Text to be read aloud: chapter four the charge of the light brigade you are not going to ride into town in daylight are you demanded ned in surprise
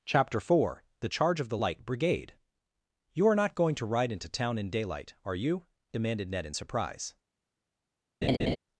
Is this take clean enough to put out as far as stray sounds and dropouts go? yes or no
no